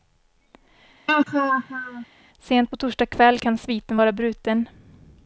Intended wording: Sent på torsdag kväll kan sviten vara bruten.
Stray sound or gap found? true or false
true